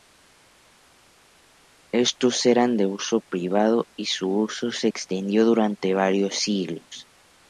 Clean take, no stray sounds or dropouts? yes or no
yes